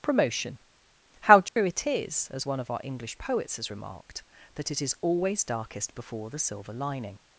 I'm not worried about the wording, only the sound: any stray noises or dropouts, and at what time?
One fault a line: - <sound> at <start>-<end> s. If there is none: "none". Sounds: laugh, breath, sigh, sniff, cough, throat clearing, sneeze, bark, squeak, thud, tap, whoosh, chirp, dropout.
- dropout at 1.5-1.6 s